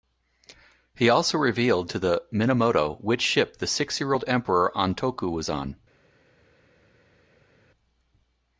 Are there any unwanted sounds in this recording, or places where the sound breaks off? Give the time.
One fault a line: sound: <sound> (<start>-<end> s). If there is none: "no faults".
no faults